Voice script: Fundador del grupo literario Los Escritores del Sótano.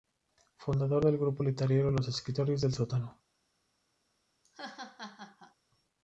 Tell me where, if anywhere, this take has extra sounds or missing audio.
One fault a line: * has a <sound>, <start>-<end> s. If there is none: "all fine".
* has a laugh, 4.4-5.6 s